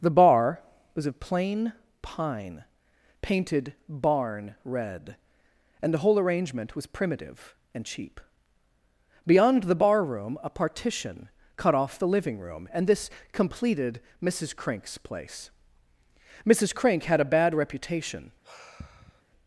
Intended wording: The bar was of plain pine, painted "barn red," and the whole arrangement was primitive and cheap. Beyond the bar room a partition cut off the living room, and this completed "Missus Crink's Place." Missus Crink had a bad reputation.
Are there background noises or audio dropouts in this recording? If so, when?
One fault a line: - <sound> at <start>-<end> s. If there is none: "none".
- sigh at 18.4-19.2 s